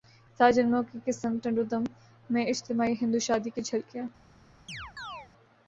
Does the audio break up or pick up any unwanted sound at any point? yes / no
yes